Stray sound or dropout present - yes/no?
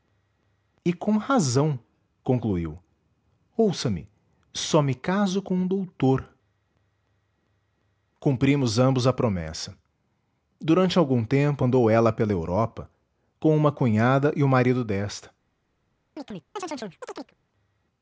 yes